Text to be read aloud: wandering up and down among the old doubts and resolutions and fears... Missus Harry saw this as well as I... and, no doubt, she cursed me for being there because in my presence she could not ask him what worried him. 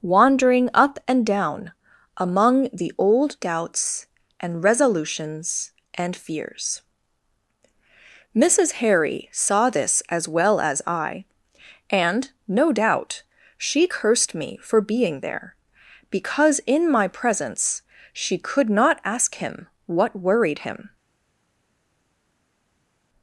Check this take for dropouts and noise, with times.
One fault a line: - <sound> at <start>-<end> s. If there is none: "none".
none